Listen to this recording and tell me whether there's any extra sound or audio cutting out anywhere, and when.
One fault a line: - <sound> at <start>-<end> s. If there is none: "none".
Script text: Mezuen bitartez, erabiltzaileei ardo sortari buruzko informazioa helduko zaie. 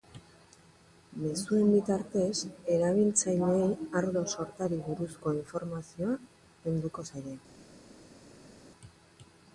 none